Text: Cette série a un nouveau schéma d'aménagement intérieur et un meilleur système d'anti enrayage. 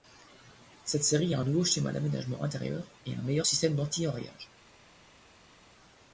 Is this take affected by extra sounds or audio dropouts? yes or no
no